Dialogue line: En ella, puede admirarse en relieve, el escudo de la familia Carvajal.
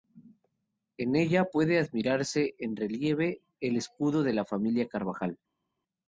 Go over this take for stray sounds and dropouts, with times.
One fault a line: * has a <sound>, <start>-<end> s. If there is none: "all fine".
all fine